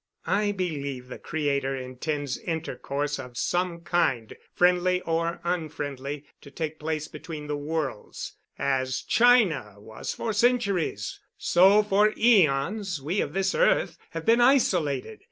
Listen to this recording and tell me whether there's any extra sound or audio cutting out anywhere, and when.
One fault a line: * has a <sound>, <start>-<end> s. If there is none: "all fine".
all fine